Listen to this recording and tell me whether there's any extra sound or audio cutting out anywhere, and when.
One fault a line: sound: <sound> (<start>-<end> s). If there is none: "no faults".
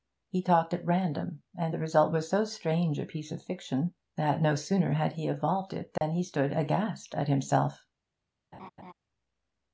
sound: dropout (6.0-6.0 s)
sound: laugh (8.5-8.9 s)